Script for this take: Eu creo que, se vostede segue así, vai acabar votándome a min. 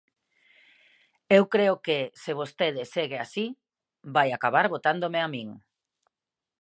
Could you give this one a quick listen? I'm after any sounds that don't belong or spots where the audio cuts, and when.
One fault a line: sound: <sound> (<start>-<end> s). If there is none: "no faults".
no faults